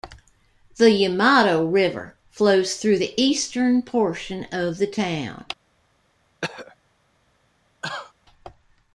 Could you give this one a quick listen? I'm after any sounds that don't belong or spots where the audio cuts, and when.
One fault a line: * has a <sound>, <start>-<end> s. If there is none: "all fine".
* has a throat clearing, 6.4-6.8 s
* has a cough, 7.8-8.1 s